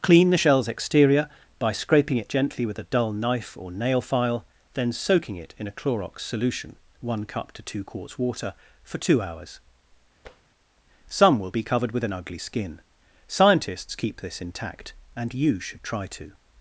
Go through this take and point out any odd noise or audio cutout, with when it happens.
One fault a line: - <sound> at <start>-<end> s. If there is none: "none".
- tap at 10.3-10.4 s